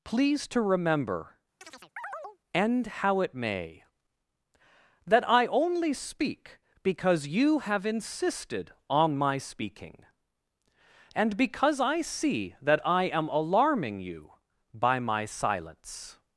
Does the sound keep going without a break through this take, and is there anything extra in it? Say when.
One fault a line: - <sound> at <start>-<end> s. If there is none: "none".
- chirp at 1.6-2.4 s